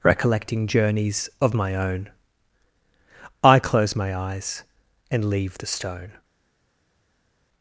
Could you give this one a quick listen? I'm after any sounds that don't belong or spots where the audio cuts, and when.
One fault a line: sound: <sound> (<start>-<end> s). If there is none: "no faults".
no faults